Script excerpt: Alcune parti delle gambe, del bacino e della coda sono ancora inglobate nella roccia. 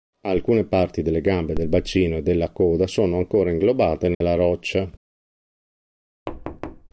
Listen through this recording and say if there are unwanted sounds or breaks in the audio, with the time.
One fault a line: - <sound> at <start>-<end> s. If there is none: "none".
- dropout at 4.1-4.2 s
- thud at 6.3-6.9 s